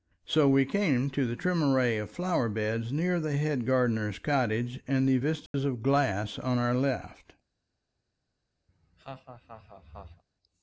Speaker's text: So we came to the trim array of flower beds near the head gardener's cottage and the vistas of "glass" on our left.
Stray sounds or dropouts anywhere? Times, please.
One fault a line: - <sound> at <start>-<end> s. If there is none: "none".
- dropout at 5.5-5.5 s
- laugh at 8.7-10.2 s